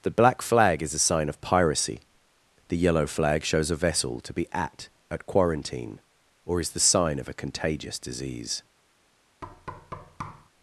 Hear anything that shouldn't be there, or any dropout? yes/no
yes